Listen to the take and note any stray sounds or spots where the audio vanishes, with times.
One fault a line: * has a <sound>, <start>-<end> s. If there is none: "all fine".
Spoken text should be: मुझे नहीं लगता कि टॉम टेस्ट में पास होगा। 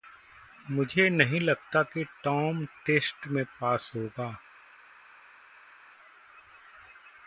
all fine